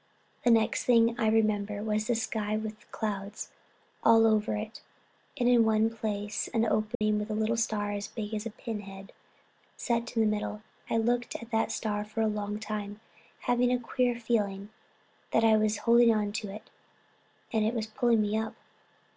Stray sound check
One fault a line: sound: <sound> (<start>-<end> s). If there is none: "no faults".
sound: dropout (6.9-7.0 s)